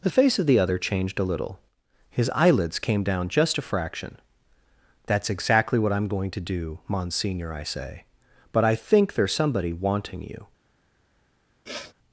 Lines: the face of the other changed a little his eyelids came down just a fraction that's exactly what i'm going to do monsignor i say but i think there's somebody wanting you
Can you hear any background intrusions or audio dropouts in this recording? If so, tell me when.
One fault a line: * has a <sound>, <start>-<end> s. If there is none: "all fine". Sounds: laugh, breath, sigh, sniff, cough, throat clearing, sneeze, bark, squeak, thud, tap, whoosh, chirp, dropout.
* has a sniff, 11.7-11.9 s